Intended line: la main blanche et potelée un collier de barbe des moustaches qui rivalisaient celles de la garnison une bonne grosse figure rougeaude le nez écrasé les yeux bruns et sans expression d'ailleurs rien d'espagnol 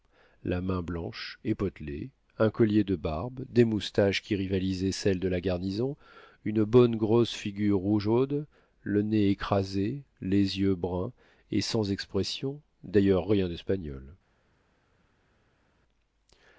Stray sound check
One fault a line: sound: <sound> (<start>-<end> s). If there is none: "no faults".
no faults